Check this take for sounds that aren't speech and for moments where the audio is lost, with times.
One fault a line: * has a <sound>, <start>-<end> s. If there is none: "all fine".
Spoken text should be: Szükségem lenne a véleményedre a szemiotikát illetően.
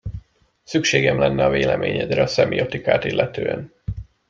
all fine